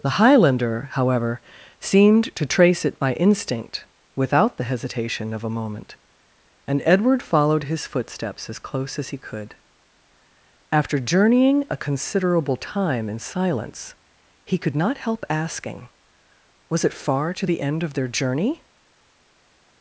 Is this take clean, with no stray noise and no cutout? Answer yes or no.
yes